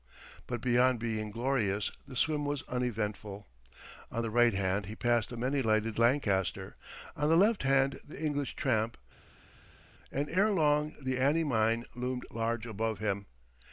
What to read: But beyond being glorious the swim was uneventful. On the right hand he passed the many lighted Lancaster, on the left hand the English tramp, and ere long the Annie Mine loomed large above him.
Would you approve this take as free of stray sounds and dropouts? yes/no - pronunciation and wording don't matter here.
yes